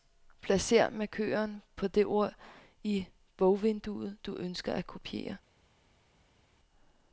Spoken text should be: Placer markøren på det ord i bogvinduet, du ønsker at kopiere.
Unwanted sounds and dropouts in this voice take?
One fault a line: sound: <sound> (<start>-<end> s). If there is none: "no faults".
no faults